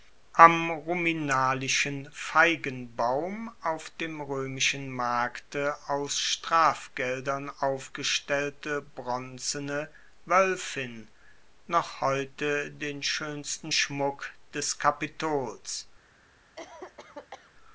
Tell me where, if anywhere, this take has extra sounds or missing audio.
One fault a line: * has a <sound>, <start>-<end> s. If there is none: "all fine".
* has a cough, 16.6-17.5 s